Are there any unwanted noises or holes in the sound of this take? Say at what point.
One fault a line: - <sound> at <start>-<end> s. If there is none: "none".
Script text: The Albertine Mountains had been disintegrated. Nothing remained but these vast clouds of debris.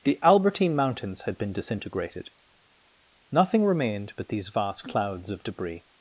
none